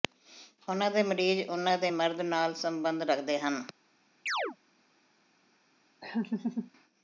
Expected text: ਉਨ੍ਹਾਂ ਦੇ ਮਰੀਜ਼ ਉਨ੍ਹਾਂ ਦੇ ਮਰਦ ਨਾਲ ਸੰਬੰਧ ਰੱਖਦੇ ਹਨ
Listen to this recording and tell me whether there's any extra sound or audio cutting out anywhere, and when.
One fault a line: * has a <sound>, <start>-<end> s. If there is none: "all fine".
* has a chirp, 4.3-4.6 s
* has a laugh, 6.0-6.7 s